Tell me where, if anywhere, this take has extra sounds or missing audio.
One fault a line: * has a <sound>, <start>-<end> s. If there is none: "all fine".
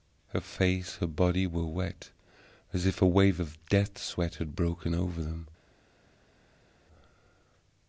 all fine